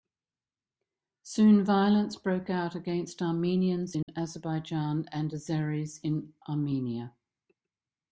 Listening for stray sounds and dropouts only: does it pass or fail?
fail